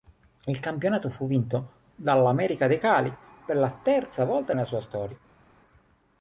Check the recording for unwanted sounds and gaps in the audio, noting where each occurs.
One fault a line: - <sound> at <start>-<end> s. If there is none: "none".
none